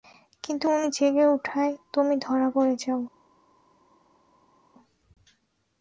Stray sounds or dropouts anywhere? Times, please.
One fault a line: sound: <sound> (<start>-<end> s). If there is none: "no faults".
no faults